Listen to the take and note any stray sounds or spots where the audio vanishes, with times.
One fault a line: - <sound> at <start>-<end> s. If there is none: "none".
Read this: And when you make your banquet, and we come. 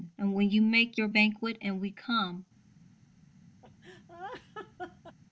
- laugh at 3.6-5.2 s